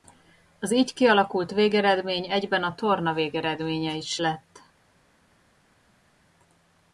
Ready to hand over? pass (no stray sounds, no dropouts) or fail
pass